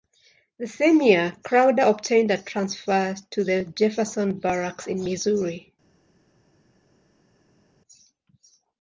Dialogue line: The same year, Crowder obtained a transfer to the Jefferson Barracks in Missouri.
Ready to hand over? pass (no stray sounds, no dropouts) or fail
pass